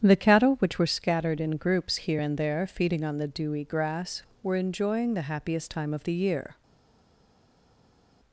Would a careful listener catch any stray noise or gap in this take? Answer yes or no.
no